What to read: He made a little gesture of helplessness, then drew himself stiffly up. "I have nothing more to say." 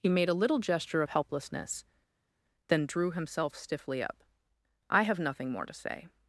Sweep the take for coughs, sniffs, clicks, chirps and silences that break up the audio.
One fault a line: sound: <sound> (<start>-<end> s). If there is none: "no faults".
no faults